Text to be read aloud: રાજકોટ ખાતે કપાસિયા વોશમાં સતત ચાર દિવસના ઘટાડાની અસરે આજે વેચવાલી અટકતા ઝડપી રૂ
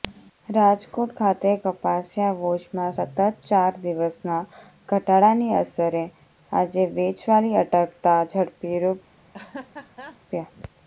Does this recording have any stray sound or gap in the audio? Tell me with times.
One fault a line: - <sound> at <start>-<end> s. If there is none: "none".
- laugh at 9.3-10.2 s